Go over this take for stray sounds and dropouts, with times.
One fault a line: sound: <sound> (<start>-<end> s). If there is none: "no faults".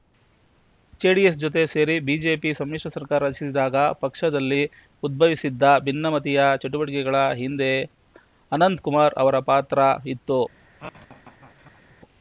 sound: laugh (10.8-12.0 s)